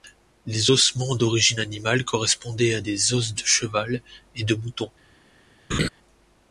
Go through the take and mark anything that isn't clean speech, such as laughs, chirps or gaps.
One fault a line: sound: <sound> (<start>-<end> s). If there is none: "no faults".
sound: laugh (5.7-5.9 s)